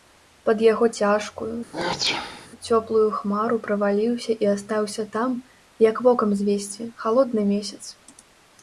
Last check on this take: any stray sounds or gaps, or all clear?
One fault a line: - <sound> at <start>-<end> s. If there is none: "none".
- sneeze at 1.7-2.5 s